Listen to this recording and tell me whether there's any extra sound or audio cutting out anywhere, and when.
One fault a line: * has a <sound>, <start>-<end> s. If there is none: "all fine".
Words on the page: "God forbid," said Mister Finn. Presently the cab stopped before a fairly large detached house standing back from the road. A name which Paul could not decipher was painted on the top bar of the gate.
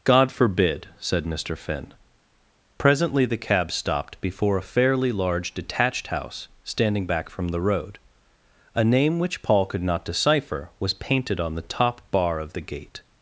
all fine